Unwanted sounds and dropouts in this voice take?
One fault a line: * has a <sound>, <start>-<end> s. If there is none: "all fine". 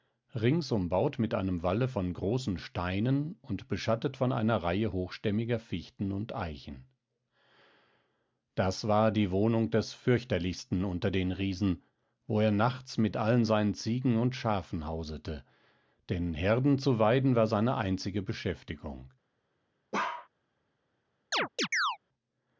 * has a bark, 19.9-20.3 s
* has a chirp, 21.3-22.0 s